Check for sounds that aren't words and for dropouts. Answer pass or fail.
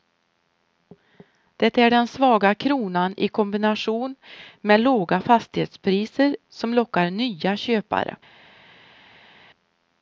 pass